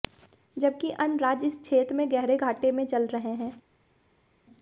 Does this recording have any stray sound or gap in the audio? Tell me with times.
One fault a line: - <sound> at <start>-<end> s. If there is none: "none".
none